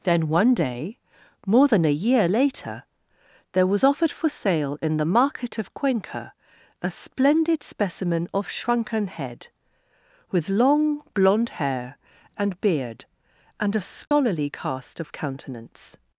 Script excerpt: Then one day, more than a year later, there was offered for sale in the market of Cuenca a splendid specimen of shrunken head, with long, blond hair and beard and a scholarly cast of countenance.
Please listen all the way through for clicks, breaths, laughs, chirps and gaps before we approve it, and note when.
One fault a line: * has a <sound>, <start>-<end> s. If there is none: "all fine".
* has a dropout, 14.1-14.1 s